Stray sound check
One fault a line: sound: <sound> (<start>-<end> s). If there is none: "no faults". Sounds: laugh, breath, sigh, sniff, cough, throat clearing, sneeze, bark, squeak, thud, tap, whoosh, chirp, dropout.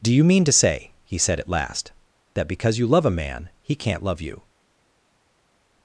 no faults